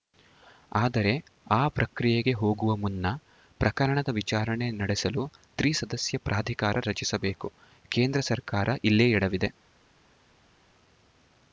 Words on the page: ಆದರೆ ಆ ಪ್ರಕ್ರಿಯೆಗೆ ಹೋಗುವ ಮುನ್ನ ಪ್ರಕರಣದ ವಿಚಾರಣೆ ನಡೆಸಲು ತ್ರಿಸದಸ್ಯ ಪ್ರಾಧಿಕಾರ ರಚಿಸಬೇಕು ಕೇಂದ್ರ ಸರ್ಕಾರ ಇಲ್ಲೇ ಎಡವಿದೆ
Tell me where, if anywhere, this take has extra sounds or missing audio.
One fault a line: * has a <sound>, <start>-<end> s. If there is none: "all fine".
all fine